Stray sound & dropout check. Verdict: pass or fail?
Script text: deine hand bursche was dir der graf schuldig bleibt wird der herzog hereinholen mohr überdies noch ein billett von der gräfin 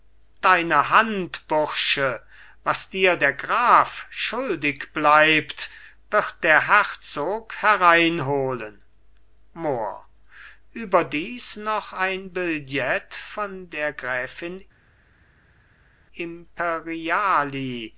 pass